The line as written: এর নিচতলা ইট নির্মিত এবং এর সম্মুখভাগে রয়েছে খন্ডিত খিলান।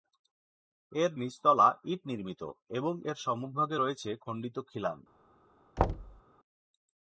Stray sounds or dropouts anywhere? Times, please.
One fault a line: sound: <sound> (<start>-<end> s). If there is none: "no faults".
sound: thud (5.8-6.2 s)